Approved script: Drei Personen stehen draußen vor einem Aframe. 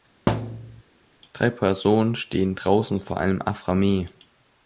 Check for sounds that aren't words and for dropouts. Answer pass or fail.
fail